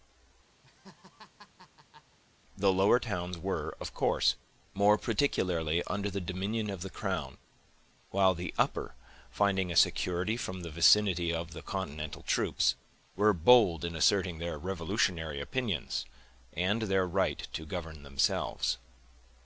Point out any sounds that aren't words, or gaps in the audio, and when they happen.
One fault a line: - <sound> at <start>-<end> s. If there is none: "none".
- laugh at 0.6-2.2 s